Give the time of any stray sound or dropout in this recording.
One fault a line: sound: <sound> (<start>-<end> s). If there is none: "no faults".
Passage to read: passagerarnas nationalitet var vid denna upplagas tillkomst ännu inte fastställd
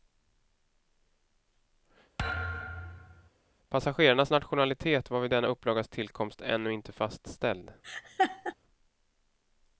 sound: thud (2.2-3.3 s)
sound: laugh (7.8-8.5 s)